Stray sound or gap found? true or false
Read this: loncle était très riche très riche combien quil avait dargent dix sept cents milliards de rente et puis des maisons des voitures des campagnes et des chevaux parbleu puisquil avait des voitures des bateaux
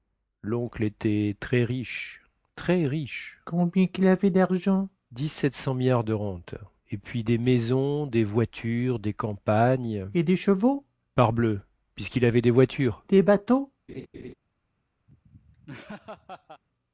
true